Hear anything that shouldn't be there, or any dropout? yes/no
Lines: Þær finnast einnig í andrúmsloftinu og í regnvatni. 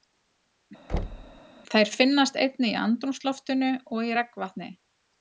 yes